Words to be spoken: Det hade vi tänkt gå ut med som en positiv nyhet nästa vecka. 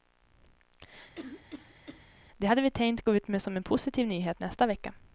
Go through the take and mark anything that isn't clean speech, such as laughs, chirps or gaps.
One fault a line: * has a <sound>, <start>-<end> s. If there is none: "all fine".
* has a cough, 1.2-2.0 s